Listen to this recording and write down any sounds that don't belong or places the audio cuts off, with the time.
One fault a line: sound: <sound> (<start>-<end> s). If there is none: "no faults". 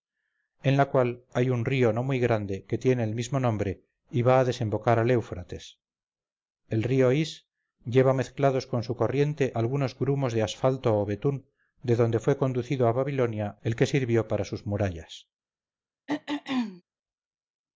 sound: throat clearing (16.1-16.8 s)